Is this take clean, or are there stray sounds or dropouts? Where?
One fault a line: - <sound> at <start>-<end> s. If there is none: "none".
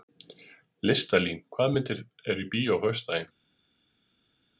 none